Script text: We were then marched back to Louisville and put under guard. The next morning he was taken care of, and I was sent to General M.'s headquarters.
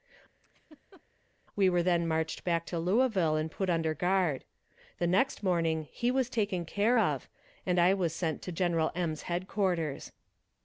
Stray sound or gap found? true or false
true